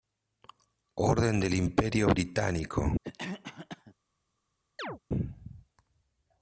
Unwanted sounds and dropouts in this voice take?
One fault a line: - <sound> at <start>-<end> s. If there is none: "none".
- cough at 3.0-3.9 s
- chirp at 4.8-5.0 s